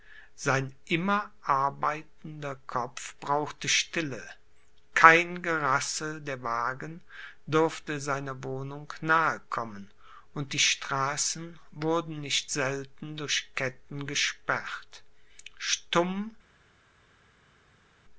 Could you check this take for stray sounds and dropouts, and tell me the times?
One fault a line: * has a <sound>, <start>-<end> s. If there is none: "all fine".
all fine